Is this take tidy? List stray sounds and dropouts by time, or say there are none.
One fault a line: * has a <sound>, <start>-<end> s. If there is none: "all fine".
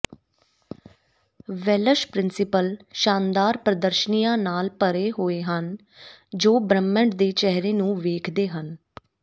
all fine